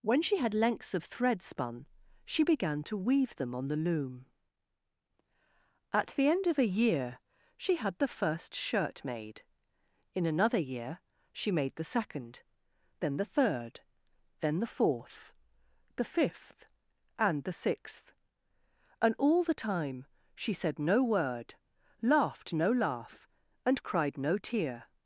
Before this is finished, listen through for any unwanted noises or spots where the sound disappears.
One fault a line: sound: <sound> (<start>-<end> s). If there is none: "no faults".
no faults